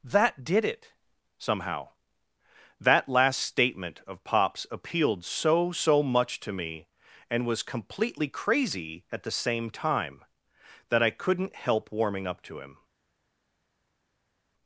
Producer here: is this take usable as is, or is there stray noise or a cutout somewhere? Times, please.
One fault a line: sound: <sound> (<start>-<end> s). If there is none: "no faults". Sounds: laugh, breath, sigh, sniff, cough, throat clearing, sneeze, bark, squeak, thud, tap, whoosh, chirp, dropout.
no faults